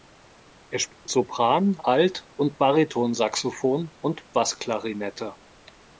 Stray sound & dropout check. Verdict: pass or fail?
fail